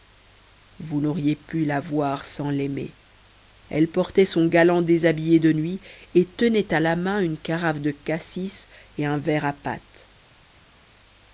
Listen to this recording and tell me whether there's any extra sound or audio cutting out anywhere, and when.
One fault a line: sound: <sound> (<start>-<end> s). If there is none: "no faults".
no faults